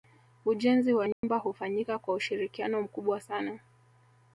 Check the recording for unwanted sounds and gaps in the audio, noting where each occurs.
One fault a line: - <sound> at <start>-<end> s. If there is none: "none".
- dropout at 1.1-1.2 s